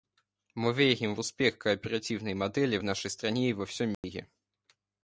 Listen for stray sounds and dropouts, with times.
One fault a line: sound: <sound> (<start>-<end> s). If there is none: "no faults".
sound: dropout (3.9-4.0 s)